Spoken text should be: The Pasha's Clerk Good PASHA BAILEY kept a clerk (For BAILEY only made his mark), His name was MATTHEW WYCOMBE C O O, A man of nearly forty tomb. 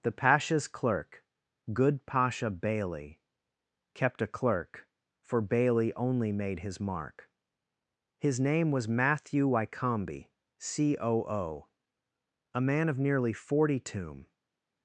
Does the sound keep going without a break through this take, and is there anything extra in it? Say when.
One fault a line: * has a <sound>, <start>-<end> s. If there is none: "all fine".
all fine